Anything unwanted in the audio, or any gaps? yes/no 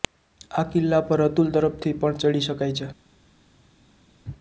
no